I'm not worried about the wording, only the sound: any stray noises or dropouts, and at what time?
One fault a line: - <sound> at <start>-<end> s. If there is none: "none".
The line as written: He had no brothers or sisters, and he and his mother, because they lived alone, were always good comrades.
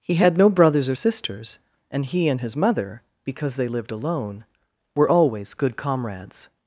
none